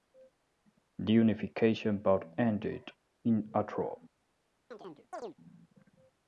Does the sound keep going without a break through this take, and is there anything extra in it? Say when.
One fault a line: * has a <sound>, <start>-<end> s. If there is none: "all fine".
* has a chirp, 4.7-5.4 s